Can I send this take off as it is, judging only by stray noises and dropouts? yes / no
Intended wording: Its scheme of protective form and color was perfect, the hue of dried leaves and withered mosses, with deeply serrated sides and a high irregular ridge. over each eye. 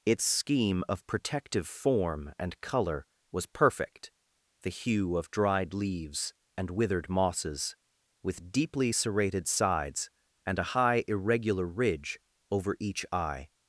yes